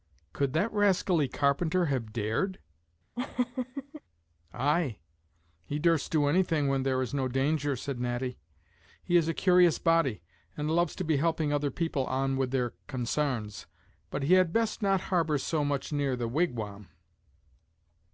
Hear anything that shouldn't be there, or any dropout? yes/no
yes